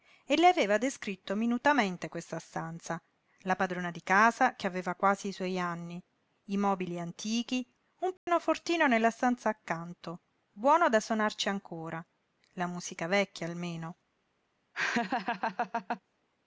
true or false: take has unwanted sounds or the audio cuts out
true